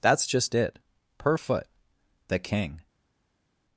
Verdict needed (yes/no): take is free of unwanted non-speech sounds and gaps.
yes